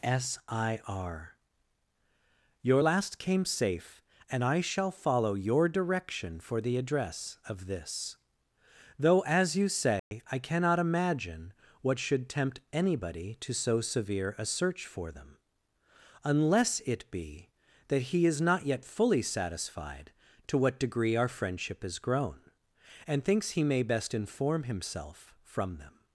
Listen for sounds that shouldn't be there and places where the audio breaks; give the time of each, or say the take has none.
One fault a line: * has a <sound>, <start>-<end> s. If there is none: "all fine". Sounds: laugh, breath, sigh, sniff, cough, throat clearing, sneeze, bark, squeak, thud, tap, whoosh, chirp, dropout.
* has a dropout, 10.0-10.1 s